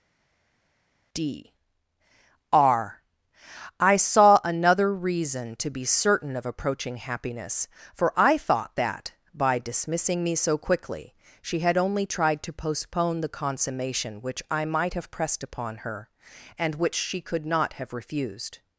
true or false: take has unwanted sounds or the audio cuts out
false